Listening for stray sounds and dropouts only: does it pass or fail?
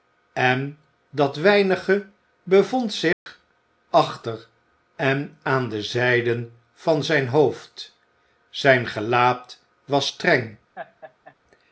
fail